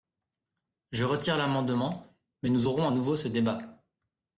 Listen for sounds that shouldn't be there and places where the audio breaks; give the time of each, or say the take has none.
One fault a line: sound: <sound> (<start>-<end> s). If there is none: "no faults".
no faults